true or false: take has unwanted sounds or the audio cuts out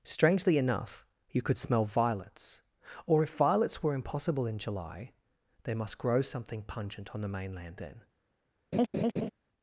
true